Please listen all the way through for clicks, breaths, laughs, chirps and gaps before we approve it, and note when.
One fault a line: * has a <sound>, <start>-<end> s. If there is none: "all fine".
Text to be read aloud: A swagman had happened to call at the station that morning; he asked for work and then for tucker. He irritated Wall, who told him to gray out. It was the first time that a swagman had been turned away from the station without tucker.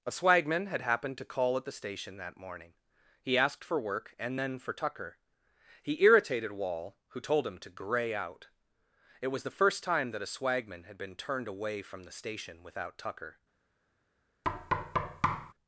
* has a thud, 14.4-15.5 s